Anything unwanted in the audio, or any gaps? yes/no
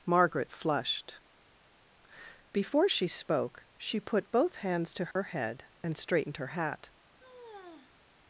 yes